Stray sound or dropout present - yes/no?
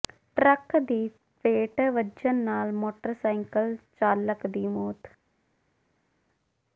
no